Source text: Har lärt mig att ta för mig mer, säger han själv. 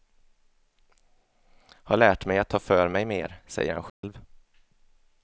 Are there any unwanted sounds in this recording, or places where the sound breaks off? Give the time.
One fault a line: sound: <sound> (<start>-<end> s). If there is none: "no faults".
sound: dropout (3.9-4.0 s)